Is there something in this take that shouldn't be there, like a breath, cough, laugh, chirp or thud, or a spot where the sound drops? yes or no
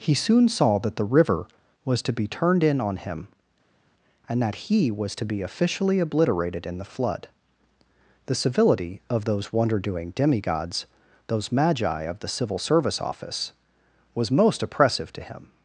no